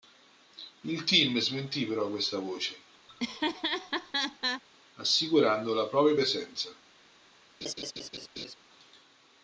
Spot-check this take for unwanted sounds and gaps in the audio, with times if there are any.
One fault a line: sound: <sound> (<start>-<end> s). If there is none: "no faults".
sound: laugh (3.1-4.6 s)
sound: laugh (7.6-8.6 s)